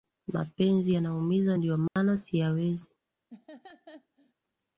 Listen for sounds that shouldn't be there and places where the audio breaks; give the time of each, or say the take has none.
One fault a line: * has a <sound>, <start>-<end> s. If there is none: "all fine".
* has a dropout, 1.9-2.0 s
* has a laugh, 3.3-4.3 s